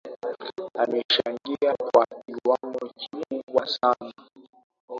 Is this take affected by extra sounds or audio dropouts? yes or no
no